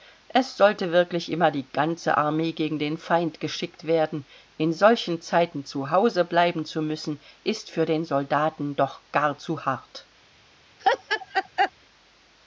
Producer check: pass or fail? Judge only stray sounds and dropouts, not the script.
fail